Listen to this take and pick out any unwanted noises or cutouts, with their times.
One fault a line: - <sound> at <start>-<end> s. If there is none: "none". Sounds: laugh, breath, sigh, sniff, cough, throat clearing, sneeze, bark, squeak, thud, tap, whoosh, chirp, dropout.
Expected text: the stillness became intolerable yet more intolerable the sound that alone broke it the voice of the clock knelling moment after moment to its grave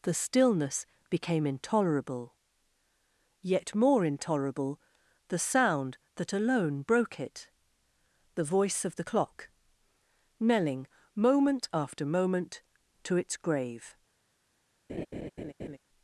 - laugh at 14.9-15.8 s